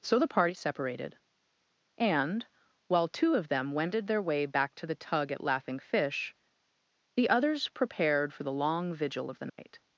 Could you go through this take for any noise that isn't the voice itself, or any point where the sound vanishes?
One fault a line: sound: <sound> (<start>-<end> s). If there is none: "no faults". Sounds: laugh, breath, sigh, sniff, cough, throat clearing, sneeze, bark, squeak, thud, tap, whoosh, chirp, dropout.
sound: dropout (9.5-9.6 s)